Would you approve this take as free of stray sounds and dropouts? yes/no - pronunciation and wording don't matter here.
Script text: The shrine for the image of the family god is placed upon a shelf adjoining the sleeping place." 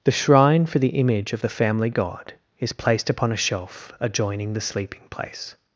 yes